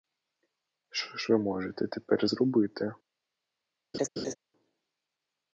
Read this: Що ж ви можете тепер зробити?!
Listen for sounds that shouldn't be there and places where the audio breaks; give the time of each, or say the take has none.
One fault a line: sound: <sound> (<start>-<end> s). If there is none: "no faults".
sound: laugh (3.9-4.3 s)